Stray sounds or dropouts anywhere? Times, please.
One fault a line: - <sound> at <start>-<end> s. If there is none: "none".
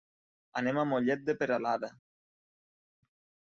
none